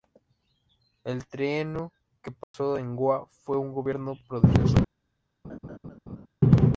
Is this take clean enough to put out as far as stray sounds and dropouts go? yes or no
no